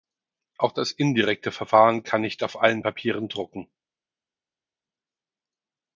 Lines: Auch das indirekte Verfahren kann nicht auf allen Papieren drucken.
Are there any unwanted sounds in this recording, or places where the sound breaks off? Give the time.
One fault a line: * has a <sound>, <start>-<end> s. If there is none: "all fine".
all fine